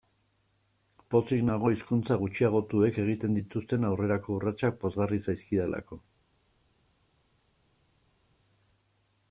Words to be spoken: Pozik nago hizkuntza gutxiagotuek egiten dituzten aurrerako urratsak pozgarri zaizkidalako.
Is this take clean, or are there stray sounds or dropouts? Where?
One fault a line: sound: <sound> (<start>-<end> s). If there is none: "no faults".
no faults